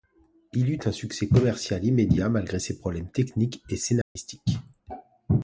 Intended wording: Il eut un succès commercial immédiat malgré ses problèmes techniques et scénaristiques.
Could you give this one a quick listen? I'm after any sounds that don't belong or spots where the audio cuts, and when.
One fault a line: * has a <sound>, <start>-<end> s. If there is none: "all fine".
* has a dropout, 4.0-4.2 s